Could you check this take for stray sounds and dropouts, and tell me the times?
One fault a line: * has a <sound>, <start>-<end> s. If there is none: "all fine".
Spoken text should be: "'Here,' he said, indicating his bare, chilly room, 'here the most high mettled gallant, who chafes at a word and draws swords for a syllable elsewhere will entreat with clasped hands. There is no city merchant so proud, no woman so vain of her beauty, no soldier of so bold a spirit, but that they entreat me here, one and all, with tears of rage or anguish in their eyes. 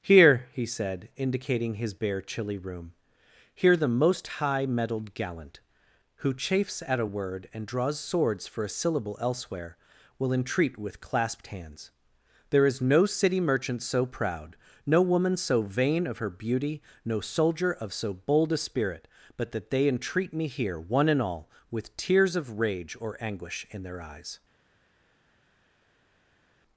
all fine